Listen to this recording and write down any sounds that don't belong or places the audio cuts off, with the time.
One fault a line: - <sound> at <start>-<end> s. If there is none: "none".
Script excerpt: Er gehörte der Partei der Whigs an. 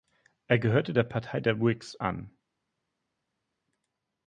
none